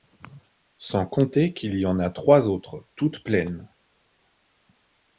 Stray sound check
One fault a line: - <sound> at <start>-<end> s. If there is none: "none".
none